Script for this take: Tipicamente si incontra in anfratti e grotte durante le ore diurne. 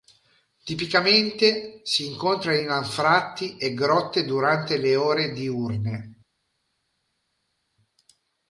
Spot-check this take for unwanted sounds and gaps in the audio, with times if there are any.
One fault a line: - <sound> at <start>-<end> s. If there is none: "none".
none